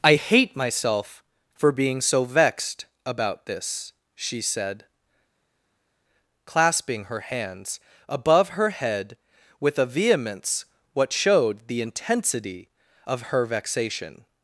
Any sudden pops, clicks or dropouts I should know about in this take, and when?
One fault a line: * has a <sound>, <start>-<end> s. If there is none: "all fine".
all fine